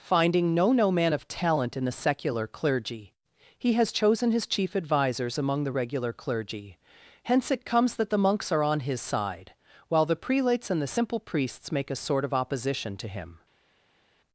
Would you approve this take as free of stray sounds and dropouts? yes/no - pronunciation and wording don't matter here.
yes